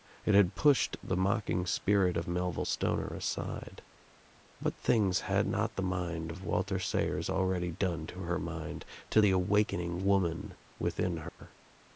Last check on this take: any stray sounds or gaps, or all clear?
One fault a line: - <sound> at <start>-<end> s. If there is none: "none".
- dropout at 11.3-11.4 s